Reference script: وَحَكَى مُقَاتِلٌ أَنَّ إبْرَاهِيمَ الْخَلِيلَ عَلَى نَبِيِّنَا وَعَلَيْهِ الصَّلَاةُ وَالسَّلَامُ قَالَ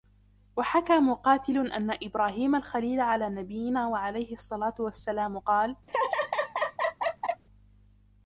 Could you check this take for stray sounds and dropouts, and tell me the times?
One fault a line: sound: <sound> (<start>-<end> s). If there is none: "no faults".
sound: laugh (5.9-7.4 s)